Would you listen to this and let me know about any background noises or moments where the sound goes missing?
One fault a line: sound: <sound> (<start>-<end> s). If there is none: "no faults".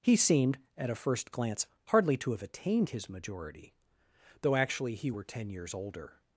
no faults